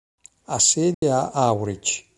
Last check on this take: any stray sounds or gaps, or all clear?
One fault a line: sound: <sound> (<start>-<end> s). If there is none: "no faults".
sound: dropout (0.9-1.0 s)